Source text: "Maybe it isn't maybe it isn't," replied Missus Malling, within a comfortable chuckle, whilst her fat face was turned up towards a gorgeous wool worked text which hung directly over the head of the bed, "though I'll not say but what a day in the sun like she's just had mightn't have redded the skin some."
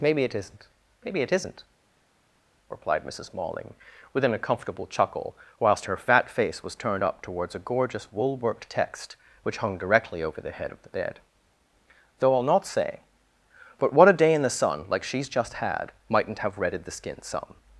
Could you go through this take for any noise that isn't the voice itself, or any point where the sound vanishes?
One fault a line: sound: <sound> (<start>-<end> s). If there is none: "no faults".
no faults